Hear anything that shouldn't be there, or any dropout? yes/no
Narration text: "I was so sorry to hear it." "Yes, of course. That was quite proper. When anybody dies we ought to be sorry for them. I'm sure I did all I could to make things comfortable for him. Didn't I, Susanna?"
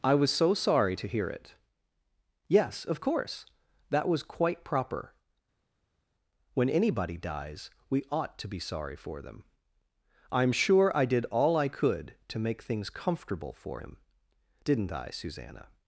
no